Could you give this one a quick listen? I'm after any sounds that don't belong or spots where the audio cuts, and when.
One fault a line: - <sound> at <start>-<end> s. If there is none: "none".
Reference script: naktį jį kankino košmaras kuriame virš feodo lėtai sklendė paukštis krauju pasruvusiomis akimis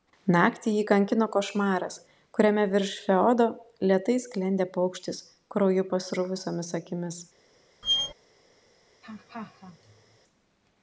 - squeak at 7.8-8.1 s
- laugh at 9.0-10.2 s